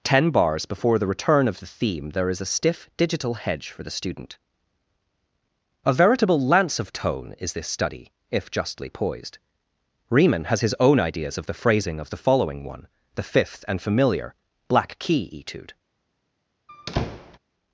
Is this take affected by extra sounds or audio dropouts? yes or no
yes